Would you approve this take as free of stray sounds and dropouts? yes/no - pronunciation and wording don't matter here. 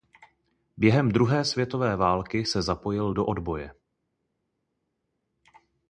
yes